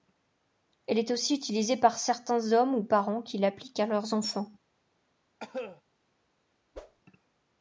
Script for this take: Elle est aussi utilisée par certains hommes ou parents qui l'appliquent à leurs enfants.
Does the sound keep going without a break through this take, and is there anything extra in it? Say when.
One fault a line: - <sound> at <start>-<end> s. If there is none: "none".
- cough at 5.4-5.8 s
- whoosh at 6.7-7.0 s